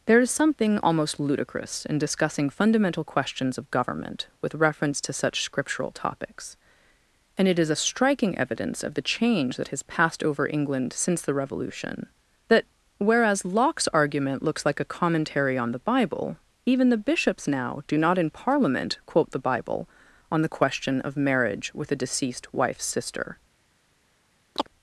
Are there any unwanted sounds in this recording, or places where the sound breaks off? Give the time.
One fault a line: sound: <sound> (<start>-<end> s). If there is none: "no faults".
sound: chirp (24.6-24.7 s)